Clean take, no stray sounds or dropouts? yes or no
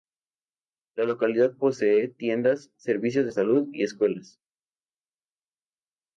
yes